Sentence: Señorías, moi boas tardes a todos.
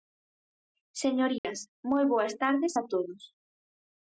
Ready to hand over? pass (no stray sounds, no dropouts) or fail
fail